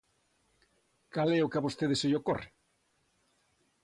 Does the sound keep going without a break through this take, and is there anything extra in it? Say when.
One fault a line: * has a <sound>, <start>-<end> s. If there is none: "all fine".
all fine